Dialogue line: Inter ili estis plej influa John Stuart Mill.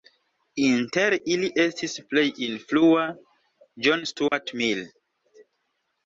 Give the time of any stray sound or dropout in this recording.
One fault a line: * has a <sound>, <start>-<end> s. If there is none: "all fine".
* has a dropout, 4.3-4.3 s